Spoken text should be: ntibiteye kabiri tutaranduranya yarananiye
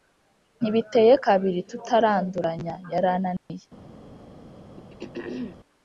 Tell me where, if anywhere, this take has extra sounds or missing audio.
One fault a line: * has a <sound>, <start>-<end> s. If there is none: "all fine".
* has a dropout, 3.4-3.5 s
* has a throat clearing, 4.8-5.6 s